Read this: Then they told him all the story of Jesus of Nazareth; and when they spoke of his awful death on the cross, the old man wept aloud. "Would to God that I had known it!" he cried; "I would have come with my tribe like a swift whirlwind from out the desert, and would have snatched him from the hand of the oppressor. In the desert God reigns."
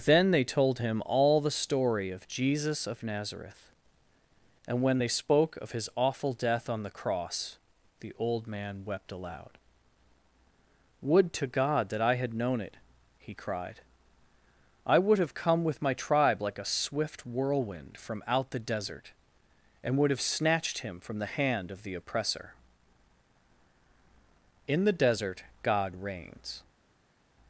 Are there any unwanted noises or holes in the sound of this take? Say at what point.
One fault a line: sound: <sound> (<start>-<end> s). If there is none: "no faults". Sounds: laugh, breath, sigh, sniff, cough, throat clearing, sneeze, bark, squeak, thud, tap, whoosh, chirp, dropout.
no faults